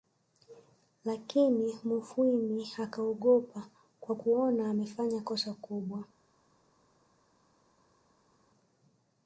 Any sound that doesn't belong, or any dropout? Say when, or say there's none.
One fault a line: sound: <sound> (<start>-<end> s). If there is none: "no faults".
no faults